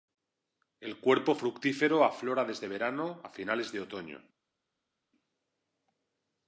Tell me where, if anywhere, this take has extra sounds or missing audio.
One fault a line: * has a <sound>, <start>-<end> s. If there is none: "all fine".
all fine